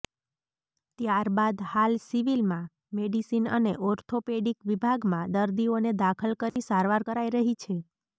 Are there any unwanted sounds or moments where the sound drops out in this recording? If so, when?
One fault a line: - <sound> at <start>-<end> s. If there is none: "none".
- dropout at 6.5-6.6 s